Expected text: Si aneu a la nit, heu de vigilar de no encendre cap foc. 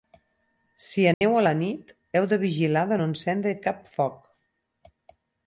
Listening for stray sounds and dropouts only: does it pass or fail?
fail